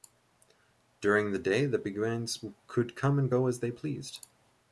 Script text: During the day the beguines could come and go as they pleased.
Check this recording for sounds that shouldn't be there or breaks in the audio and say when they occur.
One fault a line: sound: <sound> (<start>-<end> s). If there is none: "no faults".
no faults